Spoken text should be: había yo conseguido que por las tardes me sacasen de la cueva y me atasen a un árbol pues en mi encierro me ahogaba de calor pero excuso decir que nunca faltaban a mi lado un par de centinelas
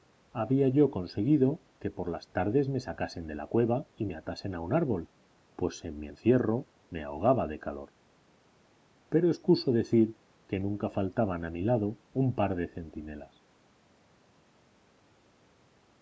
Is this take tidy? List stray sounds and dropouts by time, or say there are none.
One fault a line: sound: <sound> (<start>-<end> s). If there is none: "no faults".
no faults